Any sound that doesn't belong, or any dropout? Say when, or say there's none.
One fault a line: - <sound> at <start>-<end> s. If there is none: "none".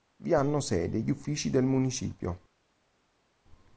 none